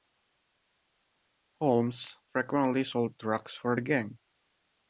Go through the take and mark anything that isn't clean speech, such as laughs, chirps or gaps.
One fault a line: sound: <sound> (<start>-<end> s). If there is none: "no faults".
no faults